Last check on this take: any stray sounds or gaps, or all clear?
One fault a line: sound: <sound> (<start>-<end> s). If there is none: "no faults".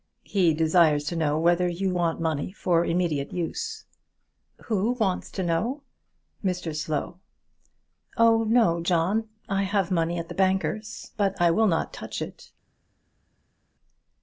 no faults